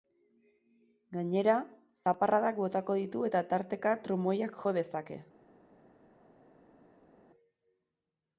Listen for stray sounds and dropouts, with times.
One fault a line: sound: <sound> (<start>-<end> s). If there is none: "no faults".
no faults